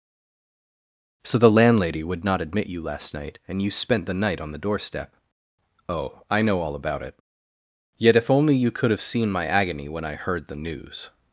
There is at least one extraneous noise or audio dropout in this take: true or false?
false